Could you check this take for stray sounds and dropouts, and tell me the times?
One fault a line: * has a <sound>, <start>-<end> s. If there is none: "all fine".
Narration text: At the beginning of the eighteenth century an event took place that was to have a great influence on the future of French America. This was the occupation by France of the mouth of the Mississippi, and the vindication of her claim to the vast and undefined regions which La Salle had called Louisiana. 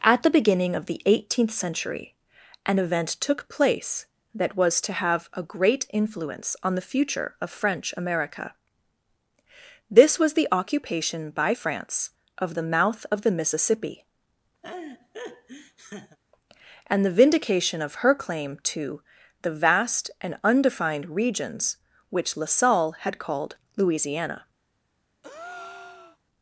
* has a laugh, 14.6-16.2 s
* has a breath, 25.2-26.2 s